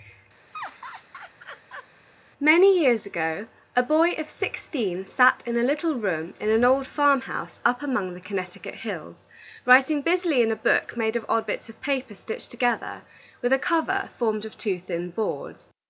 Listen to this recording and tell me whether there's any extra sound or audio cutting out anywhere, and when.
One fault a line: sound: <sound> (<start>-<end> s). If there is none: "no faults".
sound: laugh (0.5-1.9 s)